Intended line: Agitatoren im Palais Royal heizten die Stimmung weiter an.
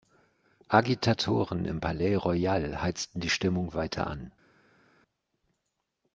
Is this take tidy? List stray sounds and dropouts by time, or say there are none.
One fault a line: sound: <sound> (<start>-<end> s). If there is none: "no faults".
no faults